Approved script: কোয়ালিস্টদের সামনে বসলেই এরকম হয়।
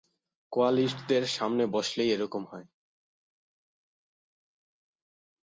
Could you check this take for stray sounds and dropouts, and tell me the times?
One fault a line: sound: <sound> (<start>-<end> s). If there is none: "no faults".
no faults